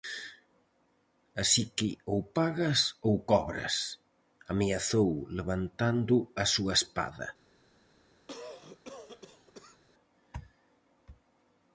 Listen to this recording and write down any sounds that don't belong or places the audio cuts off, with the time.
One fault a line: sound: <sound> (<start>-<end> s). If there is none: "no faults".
sound: cough (8.3-9.8 s)